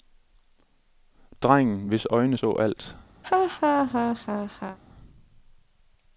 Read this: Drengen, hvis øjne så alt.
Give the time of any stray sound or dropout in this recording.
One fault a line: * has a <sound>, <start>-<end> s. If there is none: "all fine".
* has a laugh, 3.2-4.8 s